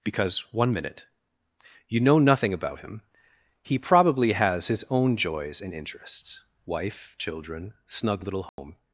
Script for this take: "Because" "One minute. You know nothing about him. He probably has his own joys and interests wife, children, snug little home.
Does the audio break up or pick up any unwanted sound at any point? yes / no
yes